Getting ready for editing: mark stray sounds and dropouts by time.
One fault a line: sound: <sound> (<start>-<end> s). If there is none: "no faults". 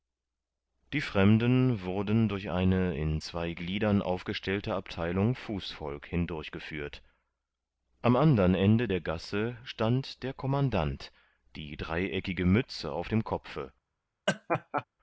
sound: laugh (14.3-14.8 s)